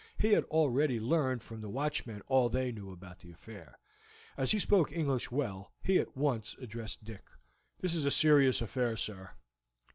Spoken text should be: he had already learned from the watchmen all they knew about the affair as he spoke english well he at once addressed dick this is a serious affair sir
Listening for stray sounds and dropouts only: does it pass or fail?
pass